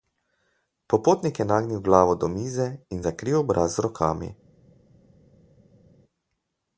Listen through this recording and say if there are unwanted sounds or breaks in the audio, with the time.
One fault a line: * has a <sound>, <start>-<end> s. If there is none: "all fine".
all fine